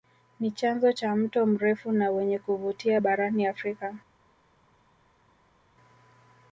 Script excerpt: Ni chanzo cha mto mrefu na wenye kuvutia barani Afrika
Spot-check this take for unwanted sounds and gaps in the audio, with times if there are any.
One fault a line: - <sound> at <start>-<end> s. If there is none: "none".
none